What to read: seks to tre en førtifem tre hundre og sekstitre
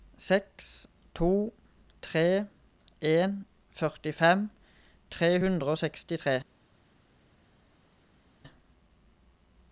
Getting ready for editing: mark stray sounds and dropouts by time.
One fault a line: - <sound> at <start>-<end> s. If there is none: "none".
none